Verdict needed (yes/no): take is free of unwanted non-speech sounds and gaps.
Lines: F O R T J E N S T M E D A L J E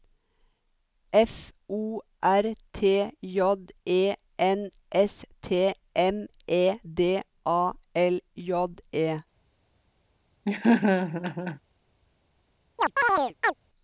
no